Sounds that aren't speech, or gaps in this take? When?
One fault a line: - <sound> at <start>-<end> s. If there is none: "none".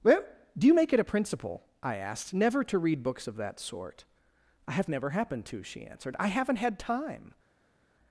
none